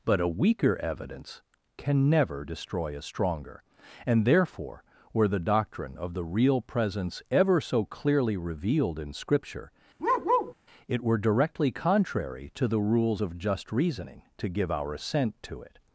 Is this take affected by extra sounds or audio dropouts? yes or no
yes